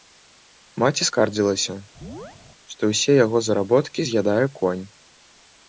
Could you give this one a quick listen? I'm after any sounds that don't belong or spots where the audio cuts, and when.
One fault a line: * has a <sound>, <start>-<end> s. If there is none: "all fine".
* has a chirp, 2.0-2.4 s